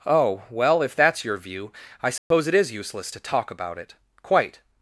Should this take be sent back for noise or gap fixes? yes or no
yes